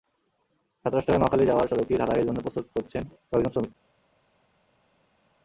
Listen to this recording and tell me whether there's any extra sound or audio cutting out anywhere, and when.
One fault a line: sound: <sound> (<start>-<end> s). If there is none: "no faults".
no faults